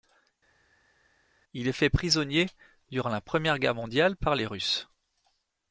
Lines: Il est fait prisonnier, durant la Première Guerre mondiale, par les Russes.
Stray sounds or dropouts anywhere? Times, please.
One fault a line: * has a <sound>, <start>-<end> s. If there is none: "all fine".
all fine